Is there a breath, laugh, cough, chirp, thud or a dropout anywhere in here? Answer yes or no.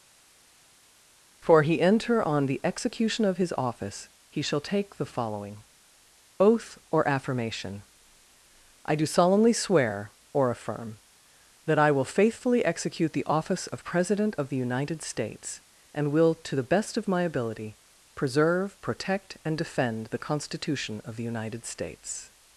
no